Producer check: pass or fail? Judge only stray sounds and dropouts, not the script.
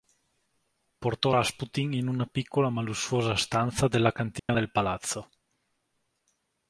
fail